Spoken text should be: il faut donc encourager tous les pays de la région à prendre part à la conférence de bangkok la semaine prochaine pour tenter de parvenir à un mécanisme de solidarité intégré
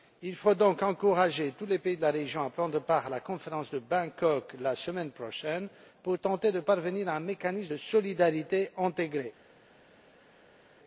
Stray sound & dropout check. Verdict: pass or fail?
pass